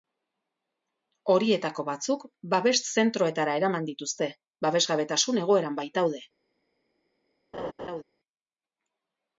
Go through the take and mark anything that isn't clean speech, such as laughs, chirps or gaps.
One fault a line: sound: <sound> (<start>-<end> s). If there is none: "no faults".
sound: laugh (7.5-8.0 s)